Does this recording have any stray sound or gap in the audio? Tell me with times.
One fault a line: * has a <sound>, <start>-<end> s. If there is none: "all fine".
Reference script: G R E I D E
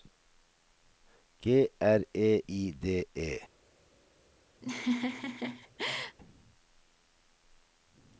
* has a laugh, 4.6-6.2 s